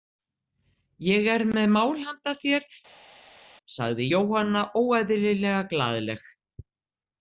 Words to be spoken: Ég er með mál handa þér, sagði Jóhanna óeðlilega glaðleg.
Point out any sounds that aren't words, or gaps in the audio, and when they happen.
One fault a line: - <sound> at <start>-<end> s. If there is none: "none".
none